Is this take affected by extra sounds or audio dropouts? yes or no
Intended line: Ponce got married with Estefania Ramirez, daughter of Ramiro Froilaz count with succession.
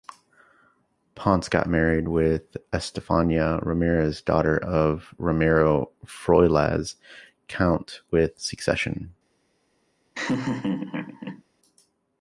yes